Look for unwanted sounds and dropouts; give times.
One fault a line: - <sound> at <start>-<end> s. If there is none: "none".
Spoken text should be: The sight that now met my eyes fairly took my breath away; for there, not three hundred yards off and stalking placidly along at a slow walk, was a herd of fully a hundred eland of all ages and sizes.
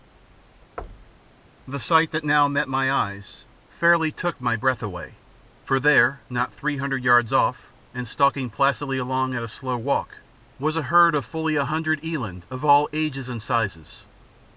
- thud at 0.8-1.3 s